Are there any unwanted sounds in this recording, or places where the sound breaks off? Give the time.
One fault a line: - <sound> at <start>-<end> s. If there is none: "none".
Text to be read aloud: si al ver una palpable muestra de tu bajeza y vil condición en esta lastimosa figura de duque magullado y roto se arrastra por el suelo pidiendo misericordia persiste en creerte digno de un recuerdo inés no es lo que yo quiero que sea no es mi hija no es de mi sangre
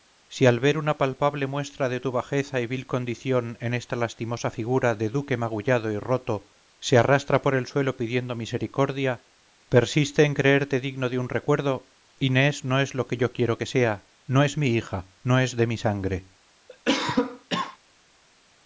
- cough at 16.7-17.8 s